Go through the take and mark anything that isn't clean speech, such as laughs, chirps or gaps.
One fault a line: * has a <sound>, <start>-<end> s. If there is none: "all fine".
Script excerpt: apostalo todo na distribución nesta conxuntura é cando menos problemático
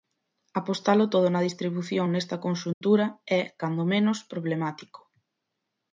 * has a dropout, 2.7-2.8 s